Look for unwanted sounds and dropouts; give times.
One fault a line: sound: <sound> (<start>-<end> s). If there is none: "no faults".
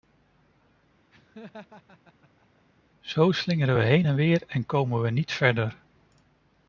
sound: laugh (1.1-2.6 s)